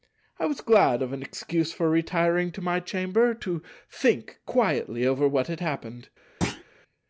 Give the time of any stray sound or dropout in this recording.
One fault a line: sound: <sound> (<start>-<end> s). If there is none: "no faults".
sound: thud (6.4-6.6 s)